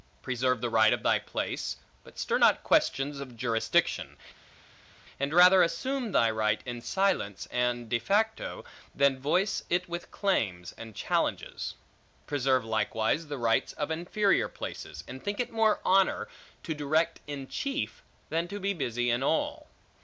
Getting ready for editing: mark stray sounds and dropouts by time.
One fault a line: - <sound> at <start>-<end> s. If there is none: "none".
none